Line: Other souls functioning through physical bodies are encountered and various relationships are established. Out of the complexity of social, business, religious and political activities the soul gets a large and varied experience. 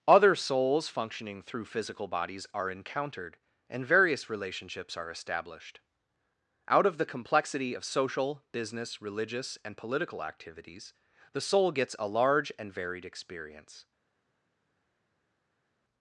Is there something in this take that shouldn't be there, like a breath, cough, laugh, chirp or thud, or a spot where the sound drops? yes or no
no